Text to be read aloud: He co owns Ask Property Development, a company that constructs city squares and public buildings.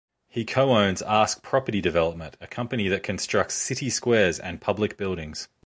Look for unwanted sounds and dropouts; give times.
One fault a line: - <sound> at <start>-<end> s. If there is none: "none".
none